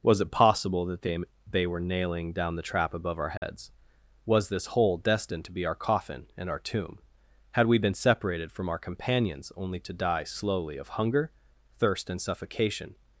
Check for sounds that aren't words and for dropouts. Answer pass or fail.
fail